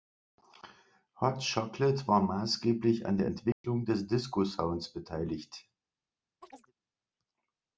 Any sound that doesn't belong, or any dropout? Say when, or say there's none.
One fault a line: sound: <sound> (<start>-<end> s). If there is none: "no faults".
sound: dropout (3.5-3.6 s)
sound: chirp (6.4-6.7 s)